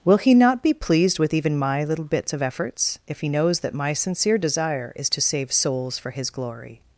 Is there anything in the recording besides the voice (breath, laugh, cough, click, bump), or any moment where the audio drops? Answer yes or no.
no